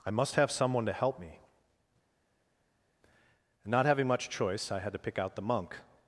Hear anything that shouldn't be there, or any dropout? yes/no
no